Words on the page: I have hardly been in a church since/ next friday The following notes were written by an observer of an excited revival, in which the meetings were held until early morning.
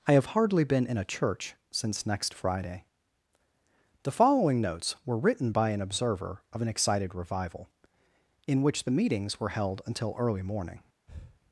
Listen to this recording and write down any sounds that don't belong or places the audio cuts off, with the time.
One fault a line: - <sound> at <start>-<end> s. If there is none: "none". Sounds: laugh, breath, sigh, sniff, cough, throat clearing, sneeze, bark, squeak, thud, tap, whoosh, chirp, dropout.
- breath at 11.1-11.4 s